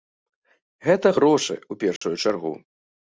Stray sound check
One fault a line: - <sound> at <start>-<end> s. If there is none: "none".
- dropout at 2.0-2.0 s